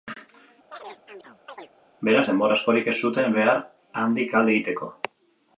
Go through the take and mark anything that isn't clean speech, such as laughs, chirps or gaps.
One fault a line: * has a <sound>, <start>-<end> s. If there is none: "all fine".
* has a chirp, 0.7-1.7 s